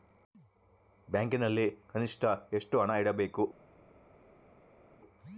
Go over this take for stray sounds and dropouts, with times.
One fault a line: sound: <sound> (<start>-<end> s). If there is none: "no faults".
no faults